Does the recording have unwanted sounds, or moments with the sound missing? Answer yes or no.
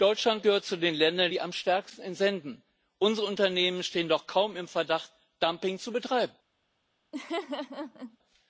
yes